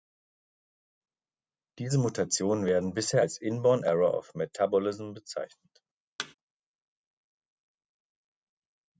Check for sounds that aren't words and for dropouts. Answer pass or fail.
fail